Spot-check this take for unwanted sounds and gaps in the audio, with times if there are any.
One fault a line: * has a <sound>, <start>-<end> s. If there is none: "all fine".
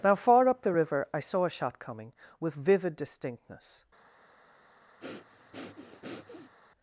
* has a breath, 5.0-6.5 s